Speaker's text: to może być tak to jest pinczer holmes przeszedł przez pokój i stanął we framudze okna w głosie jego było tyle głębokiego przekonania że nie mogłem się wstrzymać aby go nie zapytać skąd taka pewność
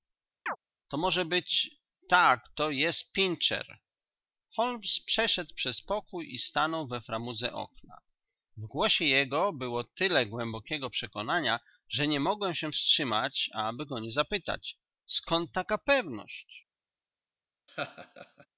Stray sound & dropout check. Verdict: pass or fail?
fail